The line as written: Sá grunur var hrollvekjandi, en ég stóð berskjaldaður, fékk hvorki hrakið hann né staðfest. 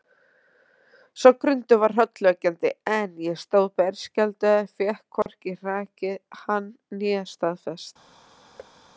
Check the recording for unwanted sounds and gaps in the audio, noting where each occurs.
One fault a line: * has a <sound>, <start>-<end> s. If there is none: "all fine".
* has a dropout, 5.2-5.3 s
* has a thud, 8.6-8.8 s